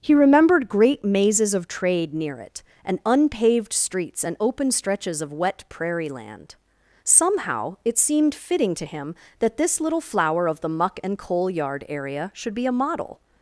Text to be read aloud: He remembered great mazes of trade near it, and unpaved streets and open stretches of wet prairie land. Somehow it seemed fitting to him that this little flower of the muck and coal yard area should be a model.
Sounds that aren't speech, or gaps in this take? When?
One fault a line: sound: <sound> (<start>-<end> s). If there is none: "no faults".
no faults